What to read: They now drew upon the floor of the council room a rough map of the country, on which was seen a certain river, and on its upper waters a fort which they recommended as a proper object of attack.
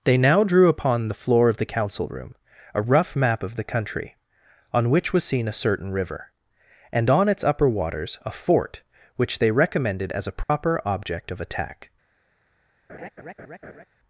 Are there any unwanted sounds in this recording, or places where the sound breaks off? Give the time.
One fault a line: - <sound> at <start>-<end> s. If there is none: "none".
- dropout at 10.4-10.5 s
- laugh at 12.9-13.9 s